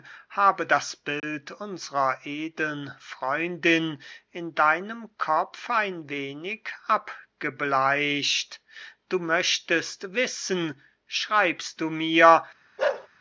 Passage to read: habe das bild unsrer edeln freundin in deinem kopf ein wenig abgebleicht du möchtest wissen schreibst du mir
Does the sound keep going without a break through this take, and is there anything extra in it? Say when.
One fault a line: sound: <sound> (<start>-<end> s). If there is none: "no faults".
sound: dropout (1.2-1.2 s)
sound: bark (12.8-13.1 s)